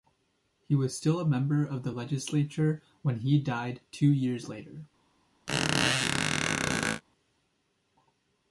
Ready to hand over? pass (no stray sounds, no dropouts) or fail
fail